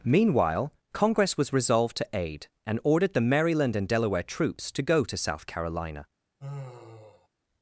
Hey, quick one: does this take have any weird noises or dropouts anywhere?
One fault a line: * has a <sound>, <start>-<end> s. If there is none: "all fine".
* has a sigh, 6.4-7.3 s